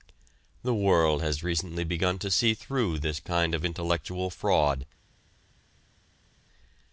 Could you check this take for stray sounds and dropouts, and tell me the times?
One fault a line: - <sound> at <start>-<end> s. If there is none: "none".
none